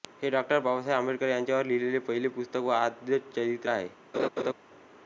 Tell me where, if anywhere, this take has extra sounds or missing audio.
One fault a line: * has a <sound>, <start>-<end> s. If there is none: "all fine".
* has a laugh, 4.1-4.5 s